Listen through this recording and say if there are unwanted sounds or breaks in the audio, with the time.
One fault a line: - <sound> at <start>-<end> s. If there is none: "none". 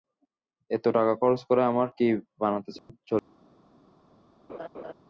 - dropout at 2.8-2.9 s
- laugh at 4.5-4.9 s